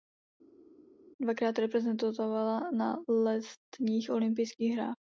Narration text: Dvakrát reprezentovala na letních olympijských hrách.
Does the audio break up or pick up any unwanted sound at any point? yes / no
no